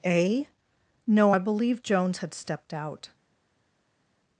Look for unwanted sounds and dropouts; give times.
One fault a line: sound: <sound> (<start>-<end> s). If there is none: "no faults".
no faults